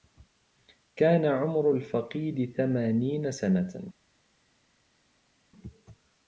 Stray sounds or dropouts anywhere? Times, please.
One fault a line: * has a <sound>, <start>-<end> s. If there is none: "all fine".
all fine